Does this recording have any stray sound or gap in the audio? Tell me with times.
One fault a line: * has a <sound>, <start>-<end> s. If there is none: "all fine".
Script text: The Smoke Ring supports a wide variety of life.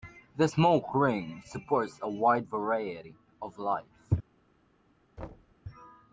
* has a thud, 5.2-5.5 s